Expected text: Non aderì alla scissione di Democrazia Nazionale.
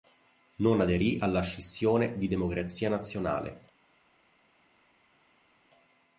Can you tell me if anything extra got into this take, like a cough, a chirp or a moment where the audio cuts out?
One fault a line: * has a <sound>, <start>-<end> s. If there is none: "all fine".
all fine